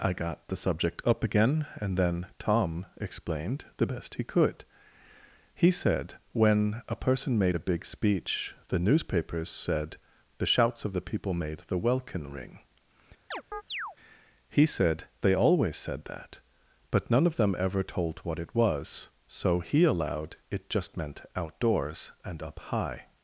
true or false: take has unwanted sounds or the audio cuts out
true